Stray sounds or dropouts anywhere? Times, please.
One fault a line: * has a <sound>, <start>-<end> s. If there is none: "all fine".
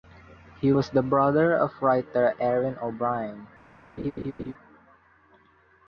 * has a laugh, 4.0-4.5 s